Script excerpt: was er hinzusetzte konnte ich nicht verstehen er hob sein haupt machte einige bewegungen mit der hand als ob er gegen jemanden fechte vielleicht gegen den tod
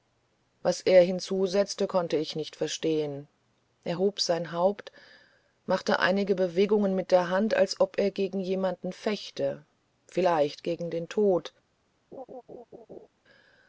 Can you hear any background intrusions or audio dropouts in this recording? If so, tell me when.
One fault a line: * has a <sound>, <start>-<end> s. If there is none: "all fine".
* has a laugh, 12.1-13.1 s